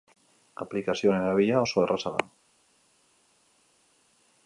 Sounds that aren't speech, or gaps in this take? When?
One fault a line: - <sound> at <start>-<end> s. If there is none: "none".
none